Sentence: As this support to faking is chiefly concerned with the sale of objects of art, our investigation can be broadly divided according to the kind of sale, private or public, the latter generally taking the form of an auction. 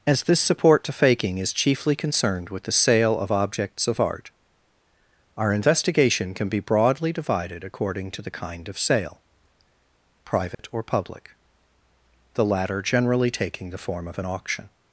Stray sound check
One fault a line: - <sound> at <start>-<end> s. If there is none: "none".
- dropout at 10.5-10.6 s